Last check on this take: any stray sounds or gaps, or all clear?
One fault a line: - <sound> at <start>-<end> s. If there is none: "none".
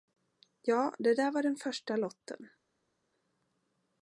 none